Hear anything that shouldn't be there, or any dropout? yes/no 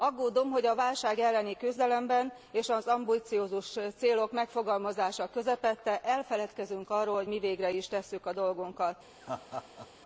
yes